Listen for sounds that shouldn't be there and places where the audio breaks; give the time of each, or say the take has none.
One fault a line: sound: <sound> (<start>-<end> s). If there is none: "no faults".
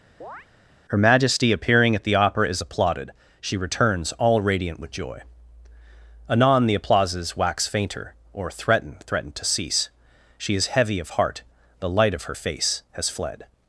sound: chirp (0.2-0.5 s)